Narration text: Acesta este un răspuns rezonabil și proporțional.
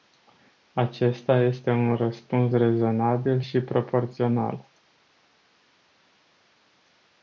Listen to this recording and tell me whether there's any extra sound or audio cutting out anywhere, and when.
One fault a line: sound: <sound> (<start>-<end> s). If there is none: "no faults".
no faults